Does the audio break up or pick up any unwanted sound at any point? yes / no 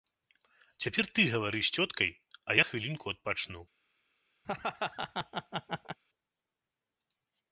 yes